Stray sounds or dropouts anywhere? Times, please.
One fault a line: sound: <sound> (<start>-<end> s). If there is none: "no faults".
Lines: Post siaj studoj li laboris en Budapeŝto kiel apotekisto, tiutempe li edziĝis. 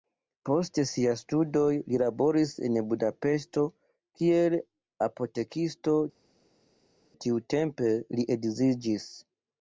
no faults